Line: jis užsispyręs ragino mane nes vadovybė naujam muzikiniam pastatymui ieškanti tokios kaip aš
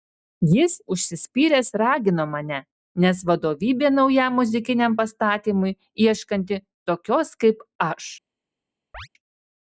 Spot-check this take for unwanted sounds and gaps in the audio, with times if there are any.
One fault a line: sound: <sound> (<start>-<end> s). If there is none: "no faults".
sound: chirp (8.9-9.1 s)